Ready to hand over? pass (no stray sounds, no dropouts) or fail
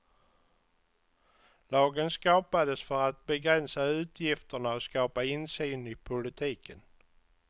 pass